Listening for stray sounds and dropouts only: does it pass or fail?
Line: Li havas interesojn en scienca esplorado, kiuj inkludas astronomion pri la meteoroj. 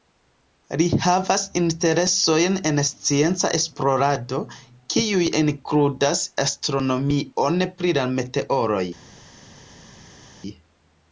pass